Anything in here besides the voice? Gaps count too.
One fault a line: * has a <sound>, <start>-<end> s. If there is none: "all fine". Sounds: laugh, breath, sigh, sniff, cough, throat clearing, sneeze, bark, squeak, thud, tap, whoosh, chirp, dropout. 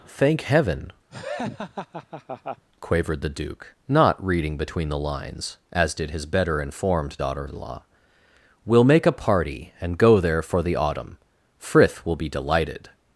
* has a laugh, 1.1-2.6 s